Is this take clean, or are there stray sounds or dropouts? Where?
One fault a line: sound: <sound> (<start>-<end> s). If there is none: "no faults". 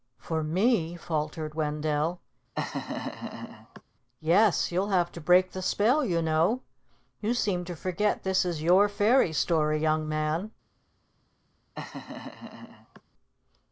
sound: laugh (2.5-3.8 s)
sound: laugh (11.7-13.0 s)